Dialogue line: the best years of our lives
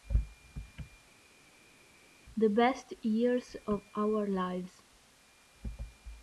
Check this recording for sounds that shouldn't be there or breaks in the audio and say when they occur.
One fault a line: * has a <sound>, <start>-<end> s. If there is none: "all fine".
all fine